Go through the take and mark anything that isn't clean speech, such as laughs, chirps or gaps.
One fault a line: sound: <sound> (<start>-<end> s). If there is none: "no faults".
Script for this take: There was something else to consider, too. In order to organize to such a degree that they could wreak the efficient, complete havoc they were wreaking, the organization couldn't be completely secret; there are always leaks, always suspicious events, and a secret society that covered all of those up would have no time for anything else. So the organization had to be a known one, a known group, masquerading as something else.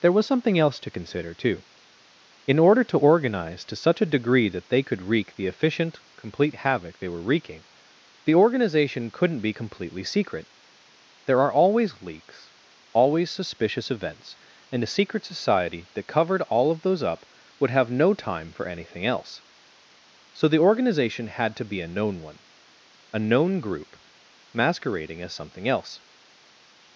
no faults